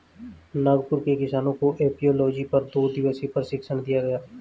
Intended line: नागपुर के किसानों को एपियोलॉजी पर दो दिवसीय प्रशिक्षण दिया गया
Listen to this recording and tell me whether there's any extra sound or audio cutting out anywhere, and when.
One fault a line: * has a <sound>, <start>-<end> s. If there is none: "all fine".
all fine